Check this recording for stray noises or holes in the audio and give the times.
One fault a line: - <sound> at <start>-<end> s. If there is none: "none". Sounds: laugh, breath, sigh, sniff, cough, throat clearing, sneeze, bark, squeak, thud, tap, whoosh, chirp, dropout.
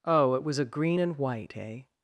none